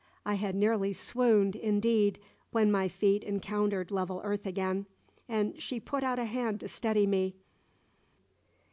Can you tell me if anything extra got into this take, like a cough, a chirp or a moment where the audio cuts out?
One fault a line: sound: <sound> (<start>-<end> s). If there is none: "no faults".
no faults